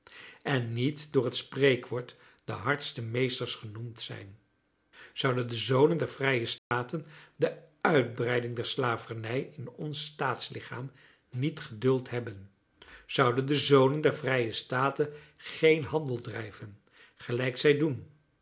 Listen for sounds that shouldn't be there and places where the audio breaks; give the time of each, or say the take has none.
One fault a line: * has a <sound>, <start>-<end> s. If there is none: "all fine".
* has a dropout, 6.6-6.7 s